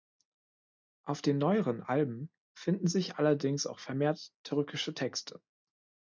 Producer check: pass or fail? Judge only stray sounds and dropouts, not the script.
pass